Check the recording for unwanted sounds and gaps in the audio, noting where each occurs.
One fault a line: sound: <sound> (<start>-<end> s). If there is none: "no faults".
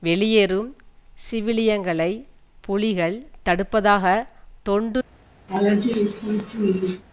sound: laugh (5.5-7.0 s)